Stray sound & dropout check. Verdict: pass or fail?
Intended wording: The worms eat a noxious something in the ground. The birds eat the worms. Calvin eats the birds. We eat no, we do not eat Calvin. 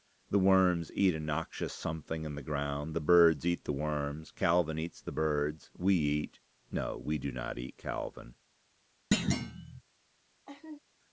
fail